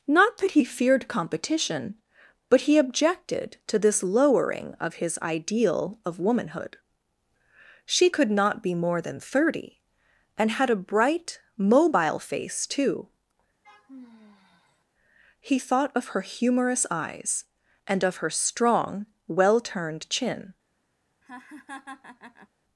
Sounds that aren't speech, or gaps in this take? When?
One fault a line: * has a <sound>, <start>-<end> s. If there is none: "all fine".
* has a sigh, 13.6-14.8 s
* has a laugh, 21.2-22.5 s